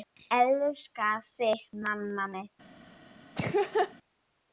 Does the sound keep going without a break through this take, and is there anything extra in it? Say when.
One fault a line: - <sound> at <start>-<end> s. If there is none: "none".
- laugh at 3.4-3.9 s